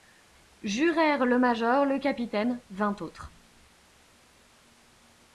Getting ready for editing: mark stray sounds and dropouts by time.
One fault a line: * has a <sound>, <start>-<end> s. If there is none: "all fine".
all fine